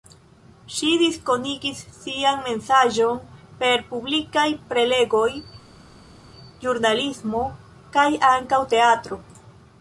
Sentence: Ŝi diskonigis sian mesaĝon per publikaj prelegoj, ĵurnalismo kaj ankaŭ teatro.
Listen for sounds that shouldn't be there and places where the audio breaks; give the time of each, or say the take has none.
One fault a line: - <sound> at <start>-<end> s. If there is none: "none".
none